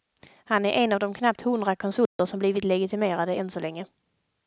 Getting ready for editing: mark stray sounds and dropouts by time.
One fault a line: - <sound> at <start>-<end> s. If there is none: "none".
- dropout at 2.1-2.2 s